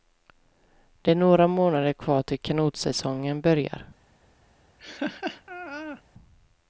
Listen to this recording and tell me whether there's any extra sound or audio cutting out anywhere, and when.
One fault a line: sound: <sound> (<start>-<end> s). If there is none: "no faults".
sound: laugh (4.8-6.0 s)